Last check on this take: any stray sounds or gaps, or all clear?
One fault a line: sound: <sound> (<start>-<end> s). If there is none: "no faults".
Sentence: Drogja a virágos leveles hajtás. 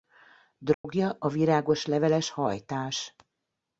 sound: dropout (0.7-0.8 s)